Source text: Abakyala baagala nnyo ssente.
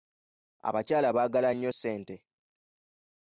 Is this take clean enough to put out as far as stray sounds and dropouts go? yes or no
yes